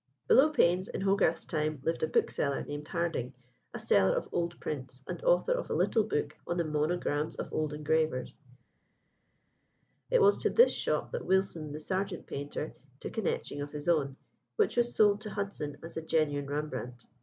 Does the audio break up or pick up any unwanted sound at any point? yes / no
no